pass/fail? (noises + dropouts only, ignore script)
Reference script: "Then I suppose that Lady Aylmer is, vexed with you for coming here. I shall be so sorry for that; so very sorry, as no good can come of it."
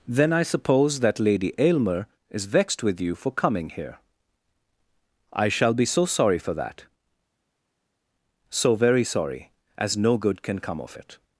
pass